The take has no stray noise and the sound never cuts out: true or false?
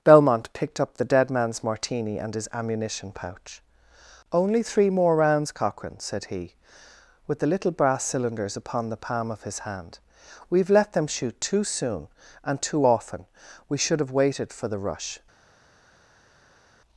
true